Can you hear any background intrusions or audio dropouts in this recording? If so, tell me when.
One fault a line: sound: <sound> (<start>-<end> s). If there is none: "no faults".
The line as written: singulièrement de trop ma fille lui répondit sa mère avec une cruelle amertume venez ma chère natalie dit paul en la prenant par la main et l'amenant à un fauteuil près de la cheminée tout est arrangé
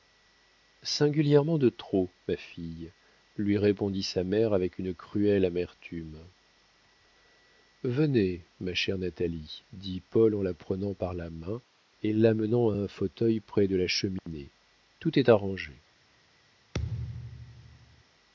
sound: dropout (14.2-14.3 s)
sound: thud (16.7-18.0 s)